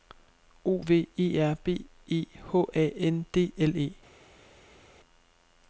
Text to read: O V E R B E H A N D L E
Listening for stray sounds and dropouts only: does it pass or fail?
pass